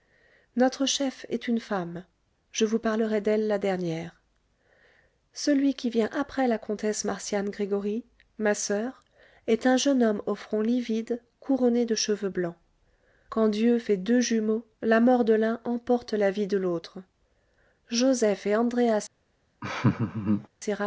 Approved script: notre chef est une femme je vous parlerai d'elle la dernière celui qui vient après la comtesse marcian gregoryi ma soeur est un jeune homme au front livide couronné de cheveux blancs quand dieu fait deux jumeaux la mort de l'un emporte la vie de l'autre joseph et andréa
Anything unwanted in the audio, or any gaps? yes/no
yes